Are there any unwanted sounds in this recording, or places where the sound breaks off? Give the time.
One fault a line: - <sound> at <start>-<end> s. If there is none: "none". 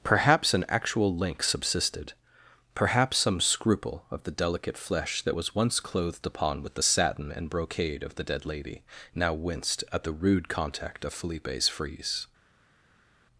none